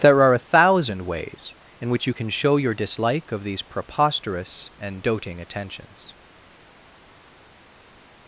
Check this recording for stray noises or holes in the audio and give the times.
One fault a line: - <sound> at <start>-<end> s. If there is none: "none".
none